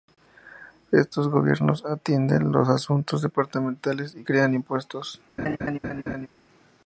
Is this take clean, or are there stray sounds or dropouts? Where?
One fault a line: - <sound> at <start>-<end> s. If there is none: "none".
- laugh at 5.4-6.3 s